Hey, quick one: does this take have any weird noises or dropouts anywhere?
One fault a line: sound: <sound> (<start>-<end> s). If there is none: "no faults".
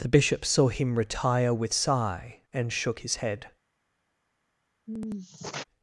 sound: sigh (4.9-5.6 s)